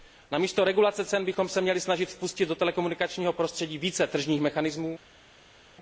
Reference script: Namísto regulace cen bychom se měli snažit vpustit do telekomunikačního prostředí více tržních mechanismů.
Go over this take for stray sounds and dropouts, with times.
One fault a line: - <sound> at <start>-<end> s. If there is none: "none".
none